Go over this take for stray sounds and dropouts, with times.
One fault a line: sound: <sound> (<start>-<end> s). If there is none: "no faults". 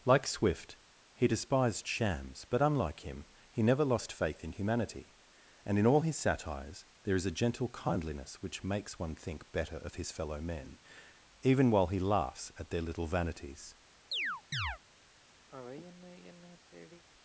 sound: chirp (14.1-14.8 s)
sound: sigh (15.5-17.0 s)